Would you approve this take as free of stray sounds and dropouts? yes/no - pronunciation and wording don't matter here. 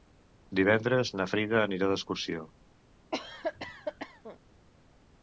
no